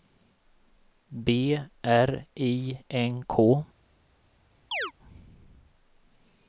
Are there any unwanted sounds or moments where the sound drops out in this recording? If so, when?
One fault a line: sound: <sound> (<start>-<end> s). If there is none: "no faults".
sound: chirp (4.7-4.9 s)